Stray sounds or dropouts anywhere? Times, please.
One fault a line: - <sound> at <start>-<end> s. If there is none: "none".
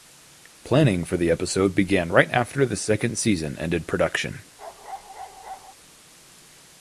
- bark at 4.6-5.7 s